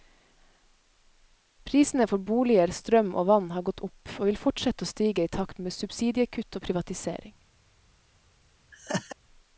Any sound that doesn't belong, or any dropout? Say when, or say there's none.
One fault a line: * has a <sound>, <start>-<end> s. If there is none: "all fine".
* has a laugh, 8.7-9.2 s